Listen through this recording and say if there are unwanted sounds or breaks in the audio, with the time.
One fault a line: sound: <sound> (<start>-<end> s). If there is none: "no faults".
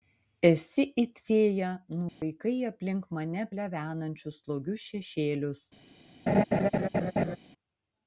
sound: dropout (2.1-2.2 s)
sound: laugh (6.3-7.4 s)